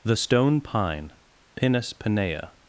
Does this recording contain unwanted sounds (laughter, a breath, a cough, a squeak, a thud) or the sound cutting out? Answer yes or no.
no